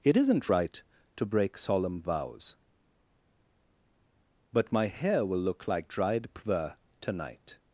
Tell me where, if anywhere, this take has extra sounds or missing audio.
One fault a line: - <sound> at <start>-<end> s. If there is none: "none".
none